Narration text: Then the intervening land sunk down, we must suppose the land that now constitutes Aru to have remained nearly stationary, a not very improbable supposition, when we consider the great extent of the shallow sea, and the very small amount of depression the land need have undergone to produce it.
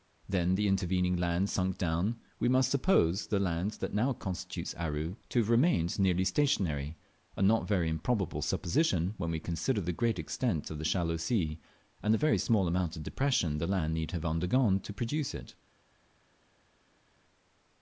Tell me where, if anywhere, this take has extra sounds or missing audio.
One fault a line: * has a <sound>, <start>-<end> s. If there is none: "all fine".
all fine